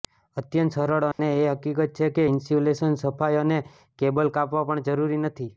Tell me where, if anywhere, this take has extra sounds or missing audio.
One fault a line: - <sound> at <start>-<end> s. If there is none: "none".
- dropout at 1.1-1.2 s